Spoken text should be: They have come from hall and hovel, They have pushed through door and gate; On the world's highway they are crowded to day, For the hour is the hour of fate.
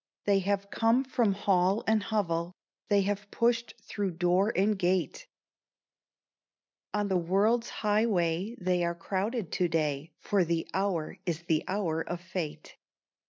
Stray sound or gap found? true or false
false